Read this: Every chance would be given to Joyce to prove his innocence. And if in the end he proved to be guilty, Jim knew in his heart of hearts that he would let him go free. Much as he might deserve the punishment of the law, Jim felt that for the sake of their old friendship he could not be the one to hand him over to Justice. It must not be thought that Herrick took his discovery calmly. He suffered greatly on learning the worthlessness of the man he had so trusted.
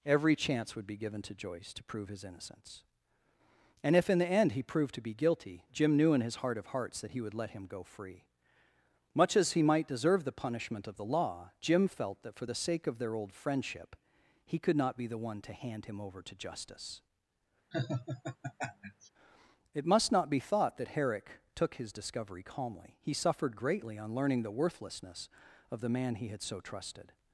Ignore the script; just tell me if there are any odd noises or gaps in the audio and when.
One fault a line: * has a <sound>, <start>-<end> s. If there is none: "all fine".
* has a laugh, 17.7-19.1 s